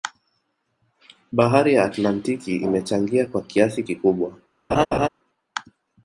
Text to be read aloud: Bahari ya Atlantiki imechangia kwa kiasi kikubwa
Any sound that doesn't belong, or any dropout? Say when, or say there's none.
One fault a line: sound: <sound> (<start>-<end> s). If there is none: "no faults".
sound: laugh (4.7-5.1 s)